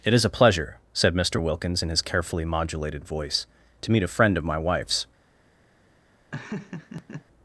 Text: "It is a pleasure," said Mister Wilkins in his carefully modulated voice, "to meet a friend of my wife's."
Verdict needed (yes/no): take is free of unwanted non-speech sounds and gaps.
no